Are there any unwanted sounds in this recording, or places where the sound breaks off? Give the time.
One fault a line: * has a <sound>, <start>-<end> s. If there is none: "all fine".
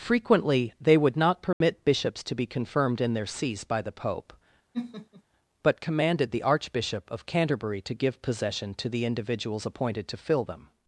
* has a dropout, 1.5-1.6 s
* has a laugh, 4.7-5.2 s